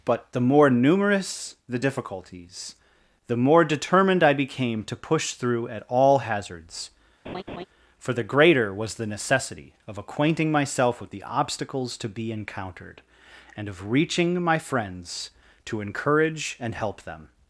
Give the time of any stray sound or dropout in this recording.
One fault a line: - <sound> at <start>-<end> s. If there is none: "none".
- laugh at 7.2-7.7 s